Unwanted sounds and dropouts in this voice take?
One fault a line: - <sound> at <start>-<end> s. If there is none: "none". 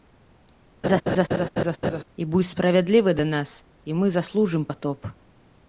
- laugh at 0.8-2.0 s